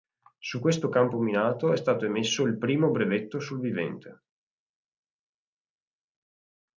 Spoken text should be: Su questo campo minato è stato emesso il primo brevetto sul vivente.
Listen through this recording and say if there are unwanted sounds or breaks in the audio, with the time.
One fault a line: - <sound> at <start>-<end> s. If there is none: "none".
none